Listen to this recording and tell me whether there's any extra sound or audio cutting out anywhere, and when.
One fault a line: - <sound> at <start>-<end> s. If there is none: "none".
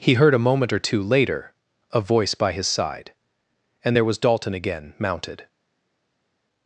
none